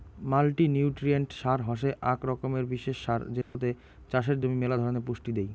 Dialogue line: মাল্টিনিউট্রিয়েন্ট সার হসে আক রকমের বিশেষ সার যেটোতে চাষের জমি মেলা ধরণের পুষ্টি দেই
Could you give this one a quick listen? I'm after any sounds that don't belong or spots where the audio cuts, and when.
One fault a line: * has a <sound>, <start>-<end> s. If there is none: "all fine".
* has a dropout, 3.4-3.6 s